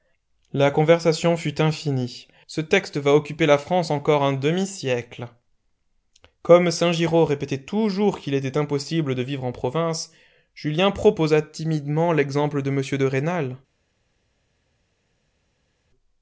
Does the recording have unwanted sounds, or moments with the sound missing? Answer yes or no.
no